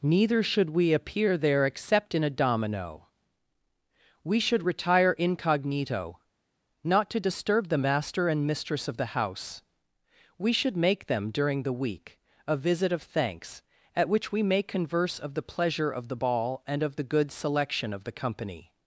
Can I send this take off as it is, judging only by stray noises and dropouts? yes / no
yes